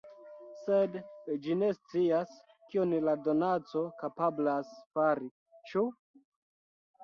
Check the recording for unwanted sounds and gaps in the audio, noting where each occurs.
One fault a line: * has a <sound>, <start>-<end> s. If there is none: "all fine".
all fine